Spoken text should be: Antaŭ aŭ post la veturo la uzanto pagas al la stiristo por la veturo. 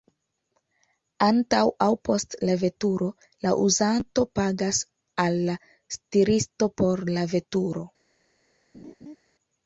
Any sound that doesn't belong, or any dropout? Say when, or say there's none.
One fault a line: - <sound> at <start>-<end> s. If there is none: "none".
- laugh at 8.7-9.2 s